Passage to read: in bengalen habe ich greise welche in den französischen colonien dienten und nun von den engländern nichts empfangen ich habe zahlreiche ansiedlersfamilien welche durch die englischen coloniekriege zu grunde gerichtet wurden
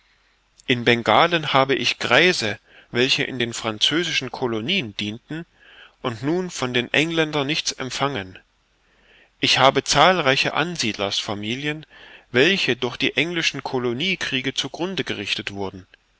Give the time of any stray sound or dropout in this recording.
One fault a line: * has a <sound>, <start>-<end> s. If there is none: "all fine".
all fine